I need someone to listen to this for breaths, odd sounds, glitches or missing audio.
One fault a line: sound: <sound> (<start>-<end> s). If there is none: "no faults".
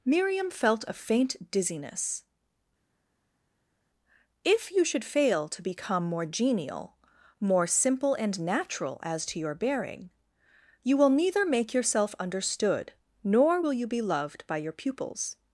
no faults